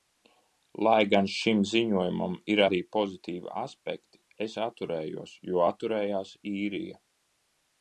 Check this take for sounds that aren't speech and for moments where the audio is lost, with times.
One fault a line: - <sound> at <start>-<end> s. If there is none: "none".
none